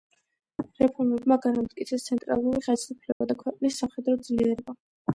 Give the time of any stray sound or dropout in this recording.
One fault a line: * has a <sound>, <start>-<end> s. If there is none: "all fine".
* has a dropout, 3.1-3.2 s